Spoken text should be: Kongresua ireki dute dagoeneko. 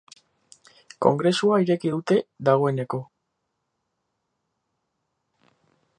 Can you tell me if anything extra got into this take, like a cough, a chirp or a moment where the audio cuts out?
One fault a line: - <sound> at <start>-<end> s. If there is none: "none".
none